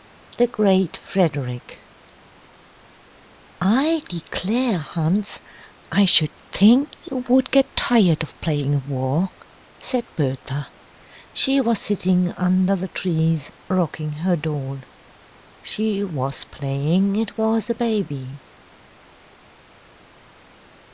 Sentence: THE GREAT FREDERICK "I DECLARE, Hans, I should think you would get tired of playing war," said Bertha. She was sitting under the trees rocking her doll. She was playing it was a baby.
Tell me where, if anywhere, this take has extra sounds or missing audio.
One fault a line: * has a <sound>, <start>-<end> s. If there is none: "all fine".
all fine